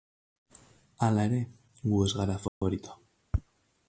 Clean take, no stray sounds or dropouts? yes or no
no